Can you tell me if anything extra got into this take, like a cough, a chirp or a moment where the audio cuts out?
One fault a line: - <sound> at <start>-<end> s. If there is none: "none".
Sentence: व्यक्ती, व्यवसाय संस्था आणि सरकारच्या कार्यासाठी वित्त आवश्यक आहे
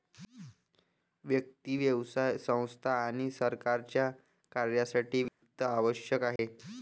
- dropout at 5.3-5.4 s
- dropout at 6.4-6.4 s